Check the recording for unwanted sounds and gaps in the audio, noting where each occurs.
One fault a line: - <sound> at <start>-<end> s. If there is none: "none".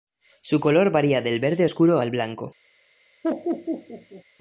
- laugh at 3.2-4.2 s